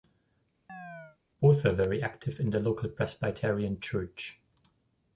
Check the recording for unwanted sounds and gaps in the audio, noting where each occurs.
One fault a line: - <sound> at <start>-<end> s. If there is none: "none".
- chirp at 0.7-1.2 s